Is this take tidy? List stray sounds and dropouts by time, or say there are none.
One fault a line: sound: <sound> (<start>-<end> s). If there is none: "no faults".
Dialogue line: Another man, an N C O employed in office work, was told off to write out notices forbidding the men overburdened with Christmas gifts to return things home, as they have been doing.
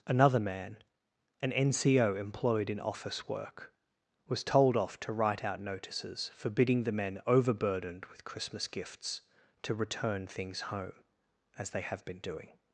no faults